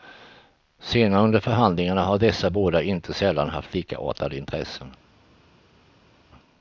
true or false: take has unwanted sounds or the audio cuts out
false